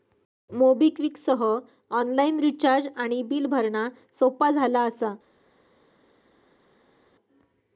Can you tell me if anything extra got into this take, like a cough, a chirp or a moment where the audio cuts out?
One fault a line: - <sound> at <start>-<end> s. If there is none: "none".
none